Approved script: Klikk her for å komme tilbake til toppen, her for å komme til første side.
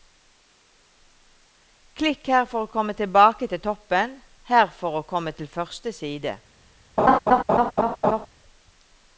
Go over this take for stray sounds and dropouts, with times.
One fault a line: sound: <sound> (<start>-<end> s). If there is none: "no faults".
sound: laugh (7.0-8.3 s)